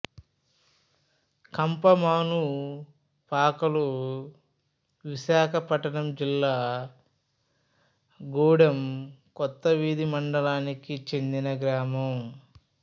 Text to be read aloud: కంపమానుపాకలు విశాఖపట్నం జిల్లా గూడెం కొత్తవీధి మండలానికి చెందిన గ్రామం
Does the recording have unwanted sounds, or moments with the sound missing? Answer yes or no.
no